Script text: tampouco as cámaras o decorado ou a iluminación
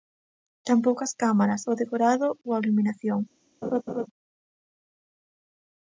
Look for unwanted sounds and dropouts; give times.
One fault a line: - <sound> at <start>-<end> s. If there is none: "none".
- laugh at 3.6-4.1 s